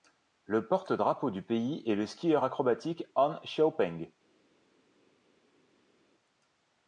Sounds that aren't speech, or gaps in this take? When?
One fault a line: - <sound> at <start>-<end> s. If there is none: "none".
none